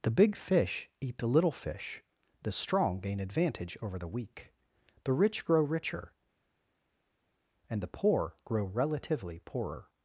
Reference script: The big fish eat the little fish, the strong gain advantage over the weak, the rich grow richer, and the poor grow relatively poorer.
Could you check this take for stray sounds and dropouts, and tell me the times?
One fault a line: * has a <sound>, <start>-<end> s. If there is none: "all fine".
all fine